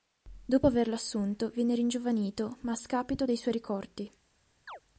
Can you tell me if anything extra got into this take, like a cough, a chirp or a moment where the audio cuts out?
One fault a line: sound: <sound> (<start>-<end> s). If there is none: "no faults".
sound: chirp (4.7-4.8 s)